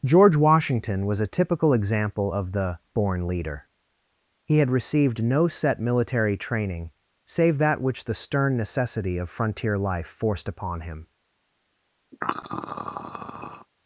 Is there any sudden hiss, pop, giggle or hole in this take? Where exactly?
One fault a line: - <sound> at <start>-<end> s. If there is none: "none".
- throat clearing at 12.1-13.7 s